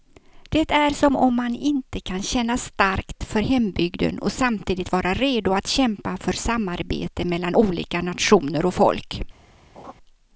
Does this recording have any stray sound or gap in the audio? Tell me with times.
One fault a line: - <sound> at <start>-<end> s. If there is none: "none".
- laugh at 9.7-9.9 s